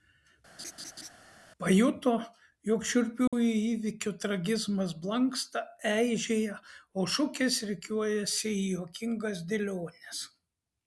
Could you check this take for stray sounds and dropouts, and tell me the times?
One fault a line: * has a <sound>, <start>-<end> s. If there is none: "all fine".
* has a laugh, 0.6-1.1 s
* has a dropout, 3.3-3.3 s